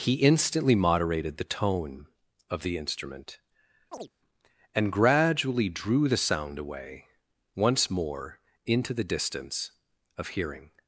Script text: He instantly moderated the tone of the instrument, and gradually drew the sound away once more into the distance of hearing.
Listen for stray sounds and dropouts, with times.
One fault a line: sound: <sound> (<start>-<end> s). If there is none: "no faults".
sound: chirp (3.9-4.1 s)